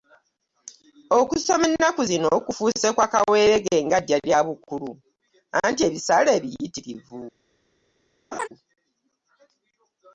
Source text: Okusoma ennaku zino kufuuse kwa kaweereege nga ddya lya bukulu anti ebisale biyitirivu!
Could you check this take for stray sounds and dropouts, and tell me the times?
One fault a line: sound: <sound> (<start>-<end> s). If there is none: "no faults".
sound: laugh (8.3-8.5 s)